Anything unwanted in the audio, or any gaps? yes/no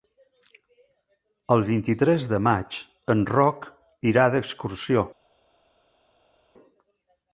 no